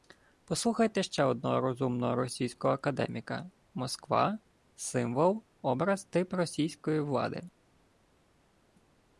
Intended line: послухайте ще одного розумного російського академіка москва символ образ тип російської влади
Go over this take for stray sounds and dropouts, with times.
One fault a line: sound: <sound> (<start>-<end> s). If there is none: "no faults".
no faults